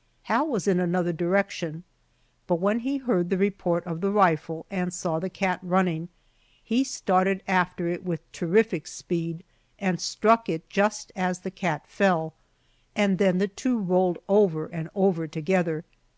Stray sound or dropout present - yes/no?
no